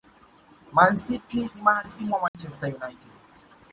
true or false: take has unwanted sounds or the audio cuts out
true